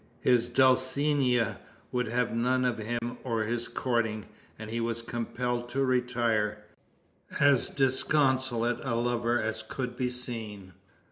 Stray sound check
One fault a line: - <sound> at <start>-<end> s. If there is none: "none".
- dropout at 3.0-3.0 s